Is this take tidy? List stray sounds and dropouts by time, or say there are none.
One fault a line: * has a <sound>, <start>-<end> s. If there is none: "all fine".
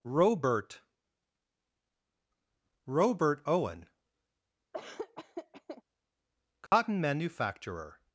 * has a laugh, 4.7-5.8 s
* has a dropout, 6.7-6.7 s